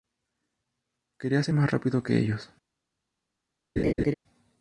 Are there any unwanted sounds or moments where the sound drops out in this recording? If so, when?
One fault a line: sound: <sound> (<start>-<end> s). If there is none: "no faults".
sound: laugh (3.8-4.1 s)